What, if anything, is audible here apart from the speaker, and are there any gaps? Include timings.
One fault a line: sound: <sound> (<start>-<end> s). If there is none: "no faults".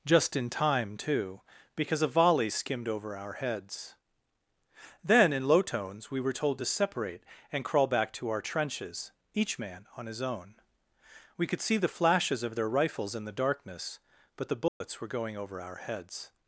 sound: dropout (14.7-14.8 s)